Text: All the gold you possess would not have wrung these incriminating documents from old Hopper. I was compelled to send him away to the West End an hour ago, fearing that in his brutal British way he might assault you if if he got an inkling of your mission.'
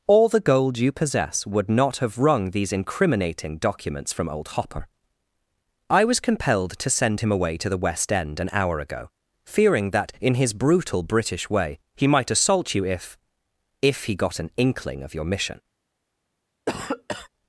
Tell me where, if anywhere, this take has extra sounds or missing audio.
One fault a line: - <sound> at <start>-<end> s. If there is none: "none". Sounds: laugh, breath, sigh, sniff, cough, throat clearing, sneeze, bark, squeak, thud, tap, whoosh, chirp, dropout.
- cough at 16.7-17.3 s